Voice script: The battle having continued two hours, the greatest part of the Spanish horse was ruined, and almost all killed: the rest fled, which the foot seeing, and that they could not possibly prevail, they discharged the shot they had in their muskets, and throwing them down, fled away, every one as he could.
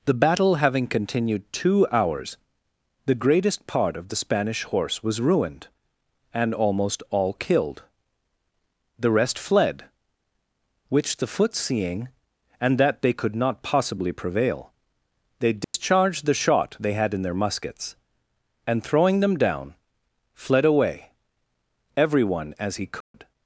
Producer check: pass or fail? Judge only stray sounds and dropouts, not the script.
fail